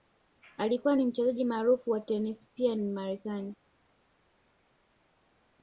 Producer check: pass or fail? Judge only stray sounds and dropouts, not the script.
pass